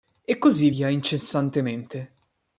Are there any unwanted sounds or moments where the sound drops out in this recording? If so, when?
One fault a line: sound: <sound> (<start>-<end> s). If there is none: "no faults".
no faults